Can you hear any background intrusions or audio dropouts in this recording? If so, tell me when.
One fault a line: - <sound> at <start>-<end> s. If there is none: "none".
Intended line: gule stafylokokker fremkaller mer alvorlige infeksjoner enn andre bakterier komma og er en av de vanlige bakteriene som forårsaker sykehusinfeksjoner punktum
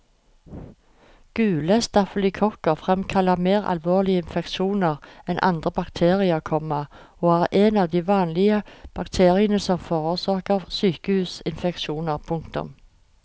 none